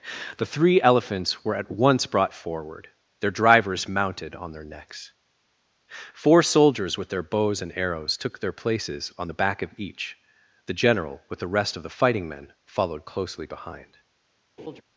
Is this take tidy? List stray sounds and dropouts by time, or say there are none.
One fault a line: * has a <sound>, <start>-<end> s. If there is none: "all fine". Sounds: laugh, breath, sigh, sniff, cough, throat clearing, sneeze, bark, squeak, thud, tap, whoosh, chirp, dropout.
* has a laugh, 14.6-14.8 s